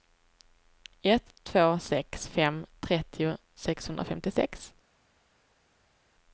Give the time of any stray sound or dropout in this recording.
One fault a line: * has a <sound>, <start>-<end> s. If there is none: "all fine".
all fine